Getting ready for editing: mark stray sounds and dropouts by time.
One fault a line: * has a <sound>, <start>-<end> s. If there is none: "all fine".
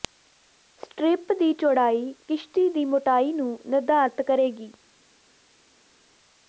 all fine